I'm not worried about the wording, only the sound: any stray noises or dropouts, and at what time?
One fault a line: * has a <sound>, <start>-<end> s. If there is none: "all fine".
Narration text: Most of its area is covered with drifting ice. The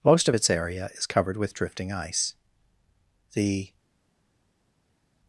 all fine